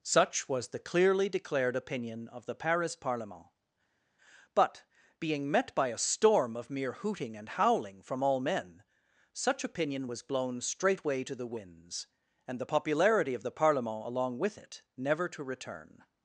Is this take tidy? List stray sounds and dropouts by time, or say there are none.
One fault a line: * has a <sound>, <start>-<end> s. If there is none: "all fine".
all fine